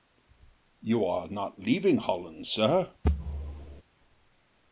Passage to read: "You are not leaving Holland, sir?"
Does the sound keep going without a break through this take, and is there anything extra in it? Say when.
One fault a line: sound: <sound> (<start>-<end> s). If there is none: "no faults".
sound: thud (3.0-3.8 s)